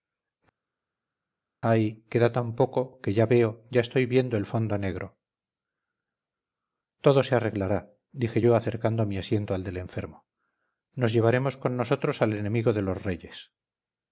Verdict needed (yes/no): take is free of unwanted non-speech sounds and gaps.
yes